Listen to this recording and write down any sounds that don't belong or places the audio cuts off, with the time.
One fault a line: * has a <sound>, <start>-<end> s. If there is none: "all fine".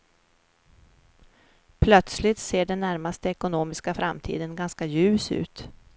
all fine